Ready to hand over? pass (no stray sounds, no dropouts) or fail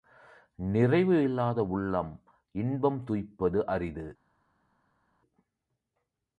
pass